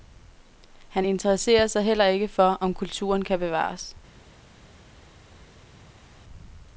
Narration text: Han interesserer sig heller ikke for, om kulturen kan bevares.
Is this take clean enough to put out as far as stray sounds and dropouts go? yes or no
yes